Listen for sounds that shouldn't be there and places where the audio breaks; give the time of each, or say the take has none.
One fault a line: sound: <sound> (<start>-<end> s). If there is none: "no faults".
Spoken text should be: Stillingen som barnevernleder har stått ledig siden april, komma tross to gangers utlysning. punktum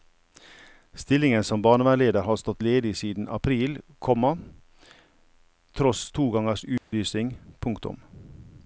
sound: dropout (6.8-6.9 s)